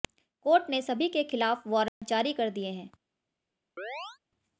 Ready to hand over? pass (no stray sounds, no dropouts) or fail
fail